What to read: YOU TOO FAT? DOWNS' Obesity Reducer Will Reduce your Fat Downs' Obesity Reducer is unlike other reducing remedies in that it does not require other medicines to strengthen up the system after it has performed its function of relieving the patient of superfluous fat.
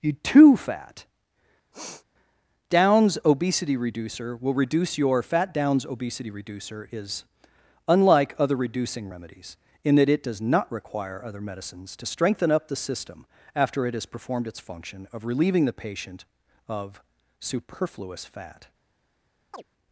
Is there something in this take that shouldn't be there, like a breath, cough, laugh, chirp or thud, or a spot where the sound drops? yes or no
yes